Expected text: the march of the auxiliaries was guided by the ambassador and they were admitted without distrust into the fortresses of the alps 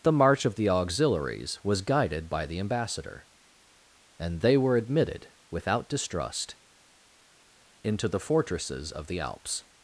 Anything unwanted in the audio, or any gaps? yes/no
no